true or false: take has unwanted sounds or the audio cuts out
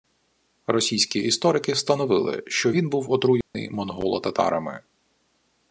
true